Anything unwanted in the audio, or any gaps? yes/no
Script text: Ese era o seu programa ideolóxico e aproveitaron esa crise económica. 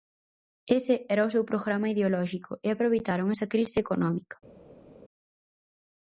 no